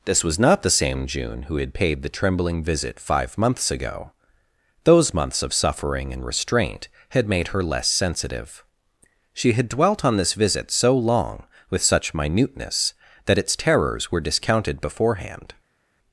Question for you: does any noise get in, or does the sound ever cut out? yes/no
no